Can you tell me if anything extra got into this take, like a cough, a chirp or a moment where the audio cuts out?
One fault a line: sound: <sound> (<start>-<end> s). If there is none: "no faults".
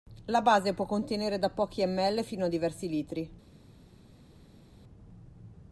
no faults